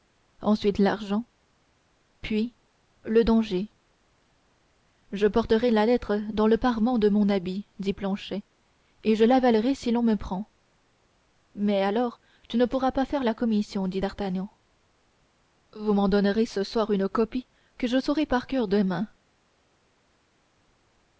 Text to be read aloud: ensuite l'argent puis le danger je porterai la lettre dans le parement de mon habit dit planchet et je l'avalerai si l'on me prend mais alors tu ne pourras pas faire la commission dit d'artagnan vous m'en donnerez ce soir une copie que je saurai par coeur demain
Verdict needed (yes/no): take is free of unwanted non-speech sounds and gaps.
yes